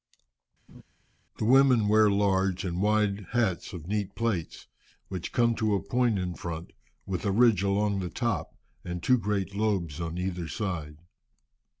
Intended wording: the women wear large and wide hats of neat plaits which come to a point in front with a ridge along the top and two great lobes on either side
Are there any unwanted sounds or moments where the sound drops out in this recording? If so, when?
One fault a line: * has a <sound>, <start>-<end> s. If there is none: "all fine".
* has a laugh, 0.7-0.8 s